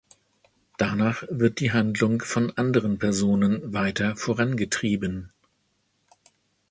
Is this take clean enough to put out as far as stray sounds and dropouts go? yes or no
yes